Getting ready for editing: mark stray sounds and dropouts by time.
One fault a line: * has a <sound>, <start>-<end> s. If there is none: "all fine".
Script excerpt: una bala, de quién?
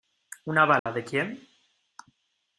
* has a dropout, 0.8-0.9 s